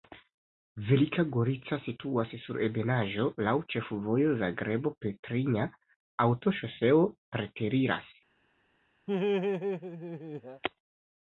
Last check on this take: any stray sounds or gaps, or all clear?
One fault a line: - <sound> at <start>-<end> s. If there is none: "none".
- laugh at 9.1-10.6 s